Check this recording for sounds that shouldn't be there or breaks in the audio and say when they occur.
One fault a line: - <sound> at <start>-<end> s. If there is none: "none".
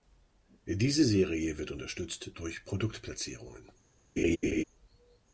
- laugh at 4.2-4.6 s